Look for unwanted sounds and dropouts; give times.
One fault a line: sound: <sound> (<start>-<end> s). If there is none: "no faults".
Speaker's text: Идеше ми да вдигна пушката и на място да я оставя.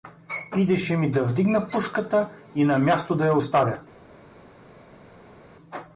no faults